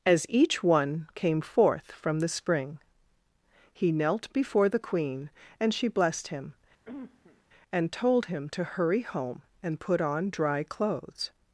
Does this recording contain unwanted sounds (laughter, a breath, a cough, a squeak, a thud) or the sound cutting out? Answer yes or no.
yes